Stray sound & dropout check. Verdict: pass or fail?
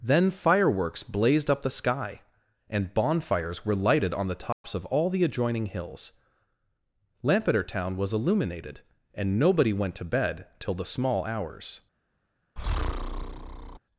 fail